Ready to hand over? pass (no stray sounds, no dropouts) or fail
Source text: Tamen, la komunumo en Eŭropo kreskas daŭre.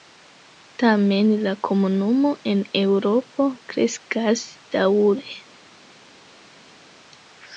pass